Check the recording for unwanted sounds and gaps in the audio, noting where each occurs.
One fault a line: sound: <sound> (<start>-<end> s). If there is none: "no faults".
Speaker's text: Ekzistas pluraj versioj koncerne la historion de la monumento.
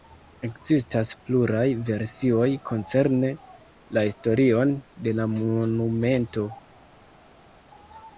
no faults